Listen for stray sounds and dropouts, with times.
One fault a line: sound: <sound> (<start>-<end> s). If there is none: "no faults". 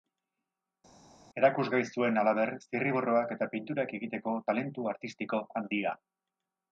no faults